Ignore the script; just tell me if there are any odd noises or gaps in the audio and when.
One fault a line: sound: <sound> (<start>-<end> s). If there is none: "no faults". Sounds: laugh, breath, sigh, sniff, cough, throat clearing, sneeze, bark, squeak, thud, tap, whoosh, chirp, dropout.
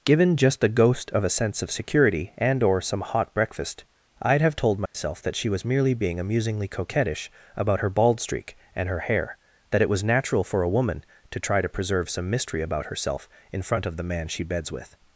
sound: dropout (4.9-4.9 s)